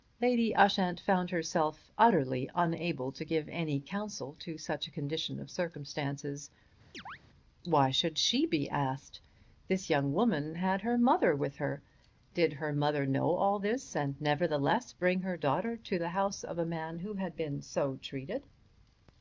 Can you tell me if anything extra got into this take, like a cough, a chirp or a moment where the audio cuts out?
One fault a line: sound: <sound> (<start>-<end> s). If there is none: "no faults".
sound: chirp (6.9-7.2 s)